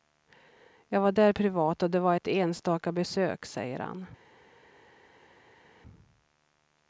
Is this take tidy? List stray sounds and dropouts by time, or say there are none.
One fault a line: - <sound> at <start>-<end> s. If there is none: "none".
none